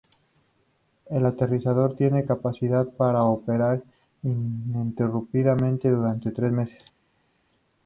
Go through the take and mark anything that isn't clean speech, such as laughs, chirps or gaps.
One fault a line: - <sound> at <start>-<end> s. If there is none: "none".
none